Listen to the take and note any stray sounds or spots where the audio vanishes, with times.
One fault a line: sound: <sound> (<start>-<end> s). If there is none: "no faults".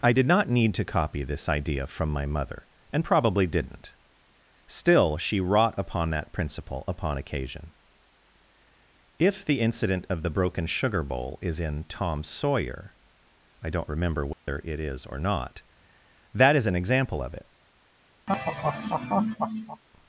sound: dropout (14.3-14.5 s)
sound: laugh (18.3-19.8 s)